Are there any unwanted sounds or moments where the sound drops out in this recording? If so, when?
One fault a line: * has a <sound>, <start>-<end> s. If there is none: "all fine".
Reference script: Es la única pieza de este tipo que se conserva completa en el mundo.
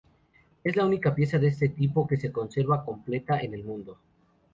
all fine